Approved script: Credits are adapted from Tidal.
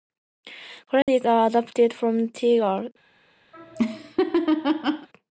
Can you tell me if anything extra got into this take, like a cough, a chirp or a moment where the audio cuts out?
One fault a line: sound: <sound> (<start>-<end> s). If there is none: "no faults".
sound: dropout (1.0-1.1 s)
sound: laugh (3.5-5.1 s)